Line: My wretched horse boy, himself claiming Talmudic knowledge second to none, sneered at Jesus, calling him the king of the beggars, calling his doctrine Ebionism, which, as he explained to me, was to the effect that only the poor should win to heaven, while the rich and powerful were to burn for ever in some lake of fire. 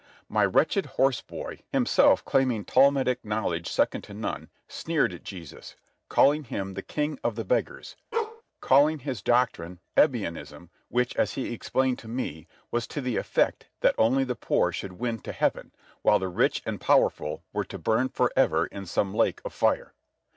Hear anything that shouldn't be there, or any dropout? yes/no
yes